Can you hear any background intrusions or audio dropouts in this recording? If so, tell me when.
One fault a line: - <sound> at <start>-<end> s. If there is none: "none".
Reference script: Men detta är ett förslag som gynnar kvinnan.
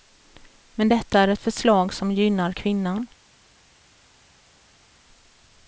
none